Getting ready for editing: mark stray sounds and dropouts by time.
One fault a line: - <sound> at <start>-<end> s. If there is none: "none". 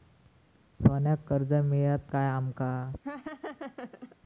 - laugh at 3.0-4.2 s